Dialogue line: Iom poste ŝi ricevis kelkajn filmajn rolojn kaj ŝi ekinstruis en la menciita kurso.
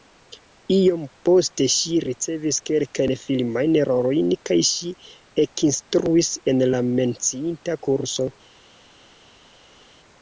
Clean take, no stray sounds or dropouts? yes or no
yes